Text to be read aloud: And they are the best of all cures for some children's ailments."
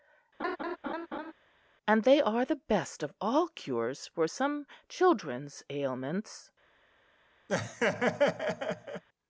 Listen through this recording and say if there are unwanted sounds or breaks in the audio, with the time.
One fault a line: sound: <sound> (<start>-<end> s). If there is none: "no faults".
sound: laugh (0.4-1.3 s)
sound: laugh (7.5-9.0 s)